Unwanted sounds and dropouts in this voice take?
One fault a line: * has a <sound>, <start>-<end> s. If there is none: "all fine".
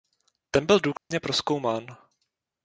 * has a dropout, 1.0-1.1 s